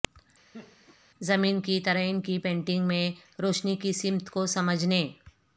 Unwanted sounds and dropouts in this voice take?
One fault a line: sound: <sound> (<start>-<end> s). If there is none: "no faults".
sound: laugh (0.5-1.0 s)